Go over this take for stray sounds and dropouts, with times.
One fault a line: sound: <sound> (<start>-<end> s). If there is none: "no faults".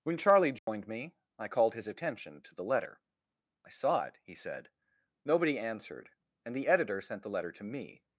sound: dropout (0.6-0.7 s)